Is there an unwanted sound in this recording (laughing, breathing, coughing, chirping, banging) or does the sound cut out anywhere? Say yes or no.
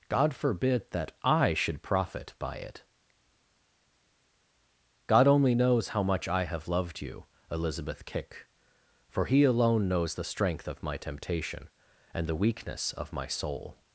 no